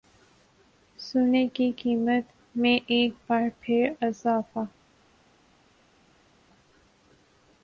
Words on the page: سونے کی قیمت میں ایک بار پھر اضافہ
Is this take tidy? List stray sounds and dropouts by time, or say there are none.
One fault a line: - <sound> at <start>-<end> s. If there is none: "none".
none